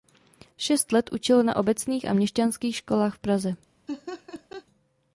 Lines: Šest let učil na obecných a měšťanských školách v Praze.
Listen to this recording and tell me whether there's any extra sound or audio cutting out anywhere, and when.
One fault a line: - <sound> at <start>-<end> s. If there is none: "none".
- laugh at 3.9-4.7 s